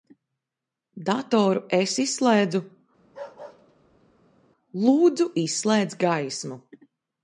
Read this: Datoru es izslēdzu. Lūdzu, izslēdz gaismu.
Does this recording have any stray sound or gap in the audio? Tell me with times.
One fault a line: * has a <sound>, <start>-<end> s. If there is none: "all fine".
* has a bark, 3.0-4.4 s